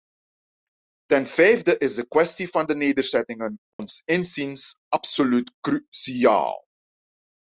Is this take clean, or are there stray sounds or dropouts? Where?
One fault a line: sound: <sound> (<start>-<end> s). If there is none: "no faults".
sound: dropout (3.7-3.8 s)